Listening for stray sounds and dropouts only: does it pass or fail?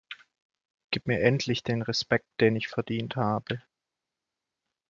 pass